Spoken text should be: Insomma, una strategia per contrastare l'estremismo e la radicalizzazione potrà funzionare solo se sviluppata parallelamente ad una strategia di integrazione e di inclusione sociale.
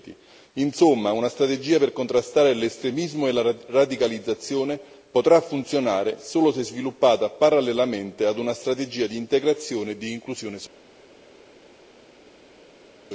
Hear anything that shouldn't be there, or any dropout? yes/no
no